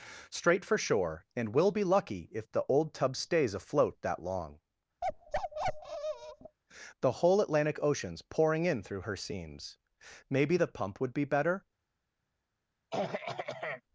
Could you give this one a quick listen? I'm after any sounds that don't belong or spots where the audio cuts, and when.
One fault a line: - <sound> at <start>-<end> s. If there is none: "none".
- bark at 5.0-6.6 s
- throat clearing at 12.9-13.8 s